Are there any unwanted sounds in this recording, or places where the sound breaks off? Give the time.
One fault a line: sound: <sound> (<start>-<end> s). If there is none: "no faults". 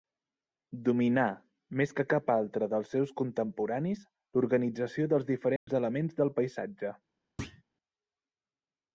sound: dropout (5.6-5.7 s)
sound: thud (7.4-7.6 s)